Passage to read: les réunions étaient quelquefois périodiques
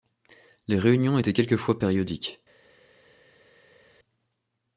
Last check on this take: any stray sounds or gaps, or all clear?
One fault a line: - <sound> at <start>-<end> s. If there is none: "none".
none